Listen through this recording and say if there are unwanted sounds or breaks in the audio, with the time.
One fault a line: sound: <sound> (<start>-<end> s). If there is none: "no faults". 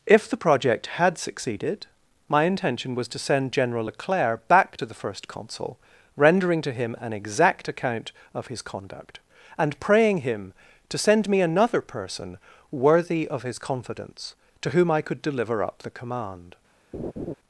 sound: laugh (16.9-17.3 s)